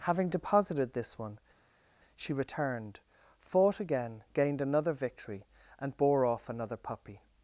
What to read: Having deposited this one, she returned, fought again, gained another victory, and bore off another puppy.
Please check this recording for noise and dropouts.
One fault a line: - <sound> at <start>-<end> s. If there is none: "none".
none